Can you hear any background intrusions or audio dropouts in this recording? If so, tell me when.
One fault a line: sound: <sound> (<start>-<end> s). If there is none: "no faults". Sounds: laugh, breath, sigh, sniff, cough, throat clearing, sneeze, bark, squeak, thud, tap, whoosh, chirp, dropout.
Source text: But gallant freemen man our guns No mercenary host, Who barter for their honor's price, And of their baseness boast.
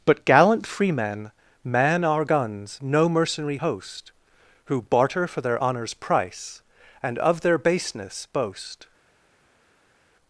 no faults